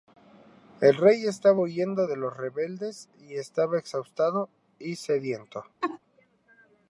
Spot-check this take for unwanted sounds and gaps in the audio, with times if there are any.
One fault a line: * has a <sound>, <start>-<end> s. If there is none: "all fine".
* has a laugh, 5.8-6.0 s